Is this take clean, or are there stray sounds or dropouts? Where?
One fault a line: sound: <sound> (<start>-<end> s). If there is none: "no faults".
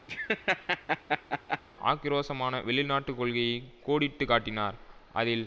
sound: laugh (0.1-1.6 s)